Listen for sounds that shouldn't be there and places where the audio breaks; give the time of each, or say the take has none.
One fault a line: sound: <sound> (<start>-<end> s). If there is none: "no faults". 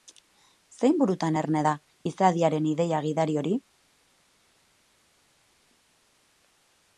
no faults